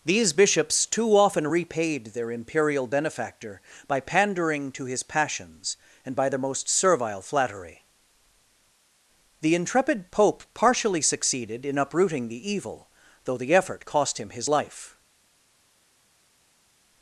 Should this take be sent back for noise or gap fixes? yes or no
no